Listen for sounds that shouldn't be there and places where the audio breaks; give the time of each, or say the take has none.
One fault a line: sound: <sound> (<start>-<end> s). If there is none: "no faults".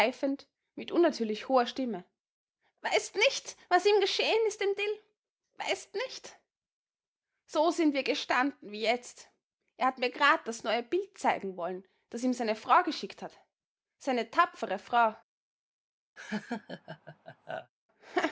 sound: laugh (16.2-17.7 s)